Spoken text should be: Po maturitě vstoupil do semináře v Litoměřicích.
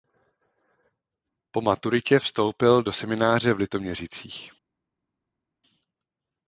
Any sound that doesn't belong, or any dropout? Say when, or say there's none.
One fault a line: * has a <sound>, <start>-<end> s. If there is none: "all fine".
all fine